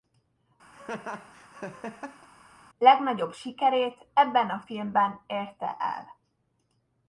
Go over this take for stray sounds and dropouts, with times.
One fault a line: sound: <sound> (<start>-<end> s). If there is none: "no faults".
sound: laugh (0.7-2.3 s)